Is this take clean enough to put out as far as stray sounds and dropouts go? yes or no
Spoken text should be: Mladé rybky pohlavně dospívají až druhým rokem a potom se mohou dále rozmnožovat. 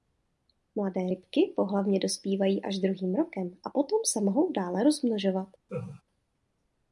no